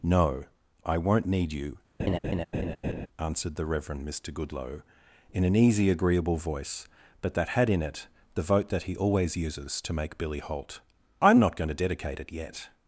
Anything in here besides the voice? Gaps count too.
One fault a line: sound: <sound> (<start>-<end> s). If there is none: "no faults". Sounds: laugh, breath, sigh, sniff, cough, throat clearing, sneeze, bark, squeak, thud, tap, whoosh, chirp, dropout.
sound: laugh (2.0-3.1 s)